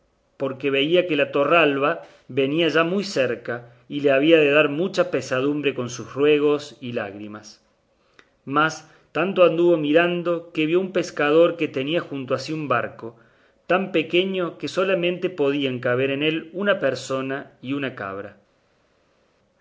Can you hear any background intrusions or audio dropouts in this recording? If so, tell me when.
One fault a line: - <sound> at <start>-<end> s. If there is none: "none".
none